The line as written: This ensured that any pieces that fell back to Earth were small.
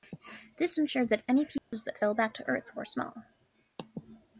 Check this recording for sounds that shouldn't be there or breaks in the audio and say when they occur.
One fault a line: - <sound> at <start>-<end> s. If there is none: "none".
- dropout at 1.6-1.7 s